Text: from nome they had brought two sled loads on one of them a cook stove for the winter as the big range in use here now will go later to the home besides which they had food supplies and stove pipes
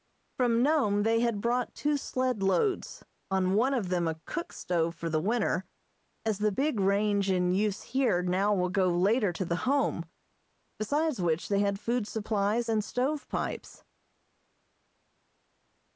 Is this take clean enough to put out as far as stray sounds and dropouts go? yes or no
yes